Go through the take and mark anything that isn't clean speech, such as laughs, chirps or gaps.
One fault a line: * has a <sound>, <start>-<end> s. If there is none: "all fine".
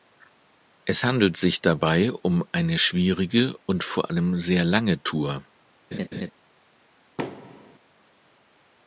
* has a laugh, 5.9-6.3 s
* has a thud, 7.2-7.8 s